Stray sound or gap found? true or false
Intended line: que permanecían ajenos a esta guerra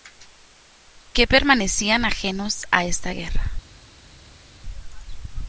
false